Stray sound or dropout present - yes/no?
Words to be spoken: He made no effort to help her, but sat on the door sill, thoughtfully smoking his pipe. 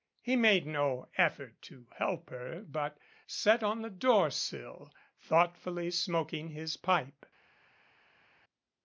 no